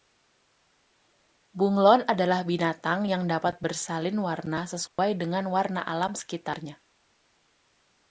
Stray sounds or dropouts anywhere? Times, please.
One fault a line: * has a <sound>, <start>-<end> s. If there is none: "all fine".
* has a dropout, 4.9-5.0 s